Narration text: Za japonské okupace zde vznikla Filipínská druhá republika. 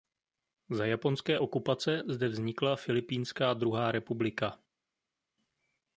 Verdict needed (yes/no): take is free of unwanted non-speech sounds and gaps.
yes